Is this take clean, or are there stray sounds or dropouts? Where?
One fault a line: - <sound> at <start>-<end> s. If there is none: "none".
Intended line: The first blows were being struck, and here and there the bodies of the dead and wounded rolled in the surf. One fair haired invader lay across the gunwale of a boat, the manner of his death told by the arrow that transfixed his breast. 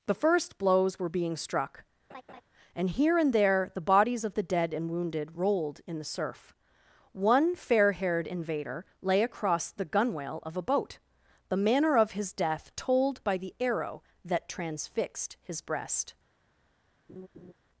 - laugh at 2.1-2.4 s
- laugh at 17.1-17.5 s